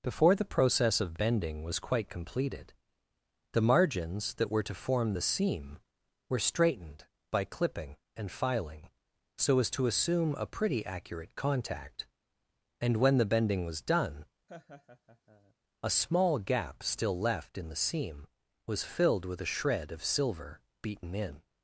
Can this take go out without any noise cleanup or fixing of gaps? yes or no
no